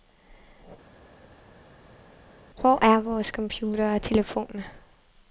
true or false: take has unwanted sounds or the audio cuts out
false